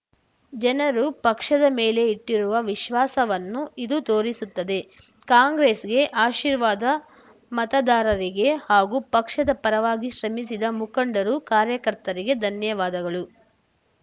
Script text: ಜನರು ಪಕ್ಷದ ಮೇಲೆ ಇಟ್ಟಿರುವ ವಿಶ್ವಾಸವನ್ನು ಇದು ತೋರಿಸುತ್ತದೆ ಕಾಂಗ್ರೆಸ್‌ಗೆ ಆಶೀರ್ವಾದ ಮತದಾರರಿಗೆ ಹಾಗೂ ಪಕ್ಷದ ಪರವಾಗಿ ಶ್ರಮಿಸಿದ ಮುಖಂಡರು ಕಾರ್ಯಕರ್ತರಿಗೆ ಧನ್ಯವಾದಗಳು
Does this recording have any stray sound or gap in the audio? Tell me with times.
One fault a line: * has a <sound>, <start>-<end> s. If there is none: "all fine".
all fine